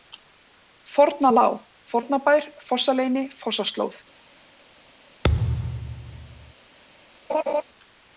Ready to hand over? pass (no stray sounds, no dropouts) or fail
fail